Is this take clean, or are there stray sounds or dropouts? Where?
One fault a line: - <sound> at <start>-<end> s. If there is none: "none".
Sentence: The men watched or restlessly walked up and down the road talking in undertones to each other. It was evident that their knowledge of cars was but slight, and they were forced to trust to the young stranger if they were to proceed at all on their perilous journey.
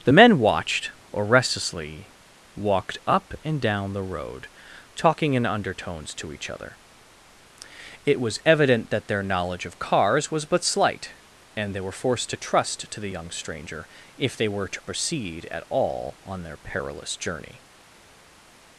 none